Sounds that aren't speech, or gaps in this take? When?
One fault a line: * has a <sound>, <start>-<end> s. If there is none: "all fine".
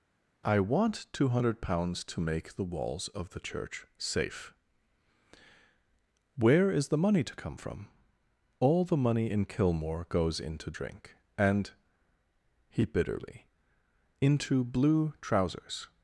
all fine